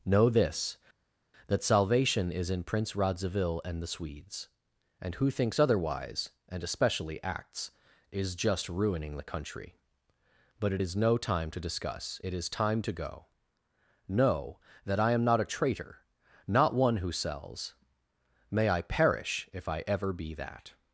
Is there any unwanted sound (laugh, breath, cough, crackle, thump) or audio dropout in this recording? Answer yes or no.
no